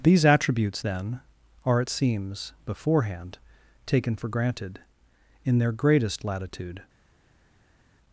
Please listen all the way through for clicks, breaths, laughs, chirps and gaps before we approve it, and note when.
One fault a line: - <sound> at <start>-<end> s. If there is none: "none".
none